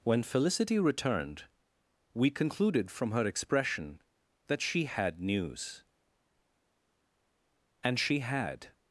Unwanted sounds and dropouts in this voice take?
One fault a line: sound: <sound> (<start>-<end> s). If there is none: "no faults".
no faults